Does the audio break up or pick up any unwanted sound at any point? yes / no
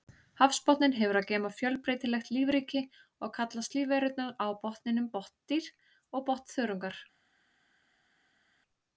no